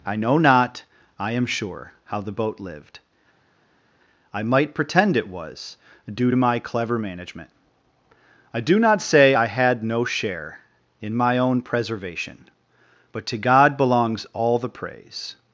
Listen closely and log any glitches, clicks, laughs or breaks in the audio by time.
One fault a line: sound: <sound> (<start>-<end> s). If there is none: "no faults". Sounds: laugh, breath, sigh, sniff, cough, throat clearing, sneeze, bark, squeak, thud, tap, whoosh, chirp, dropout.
no faults